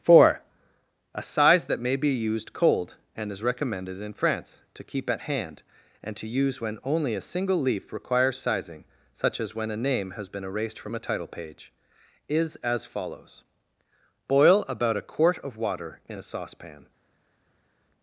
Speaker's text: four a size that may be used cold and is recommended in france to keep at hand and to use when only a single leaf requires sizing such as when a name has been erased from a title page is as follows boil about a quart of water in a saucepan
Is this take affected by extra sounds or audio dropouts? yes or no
no